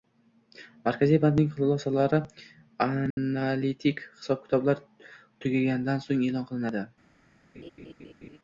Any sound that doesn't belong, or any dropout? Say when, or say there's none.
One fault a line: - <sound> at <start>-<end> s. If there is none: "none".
- dropout at 3.1-3.2 s
- laugh at 7.5-8.4 s